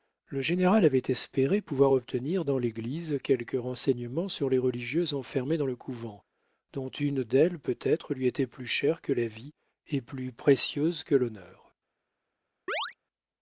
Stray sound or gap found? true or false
true